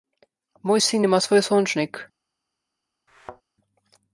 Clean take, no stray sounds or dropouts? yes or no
no